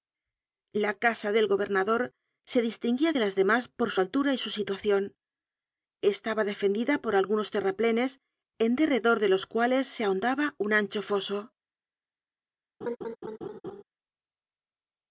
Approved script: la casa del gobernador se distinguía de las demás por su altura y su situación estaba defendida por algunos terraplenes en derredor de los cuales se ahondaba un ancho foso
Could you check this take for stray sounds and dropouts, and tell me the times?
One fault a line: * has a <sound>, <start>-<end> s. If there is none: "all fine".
* has a laugh, 12.8-13.8 s